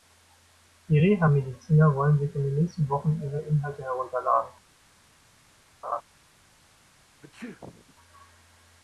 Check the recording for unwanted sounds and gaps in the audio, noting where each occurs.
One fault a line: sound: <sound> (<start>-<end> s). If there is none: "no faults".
sound: laugh (5.8-6.0 s)
sound: sneeze (7.2-7.9 s)